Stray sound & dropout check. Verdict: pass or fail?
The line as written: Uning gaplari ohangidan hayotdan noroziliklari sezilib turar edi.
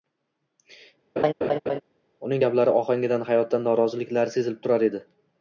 fail